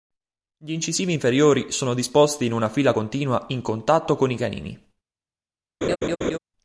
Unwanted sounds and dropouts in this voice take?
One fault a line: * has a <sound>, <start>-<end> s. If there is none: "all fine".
* has a laugh, 5.8-6.4 s